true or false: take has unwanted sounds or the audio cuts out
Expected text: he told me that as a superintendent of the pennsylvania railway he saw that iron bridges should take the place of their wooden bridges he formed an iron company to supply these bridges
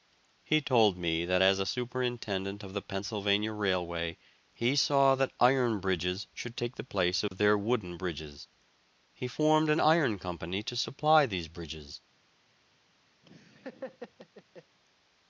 true